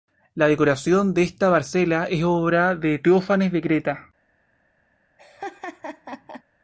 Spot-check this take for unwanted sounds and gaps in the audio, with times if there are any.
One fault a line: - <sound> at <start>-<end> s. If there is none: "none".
- laugh at 5.2-6.4 s